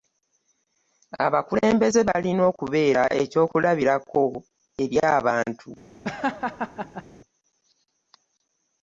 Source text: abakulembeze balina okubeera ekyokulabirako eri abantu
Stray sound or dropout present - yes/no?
yes